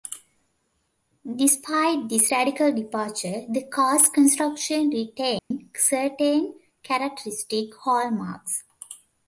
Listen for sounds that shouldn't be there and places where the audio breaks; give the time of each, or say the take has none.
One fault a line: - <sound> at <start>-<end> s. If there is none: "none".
- dropout at 5.4-5.5 s